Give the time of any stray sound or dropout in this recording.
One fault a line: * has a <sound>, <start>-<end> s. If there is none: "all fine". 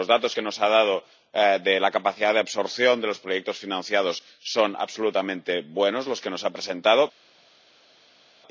all fine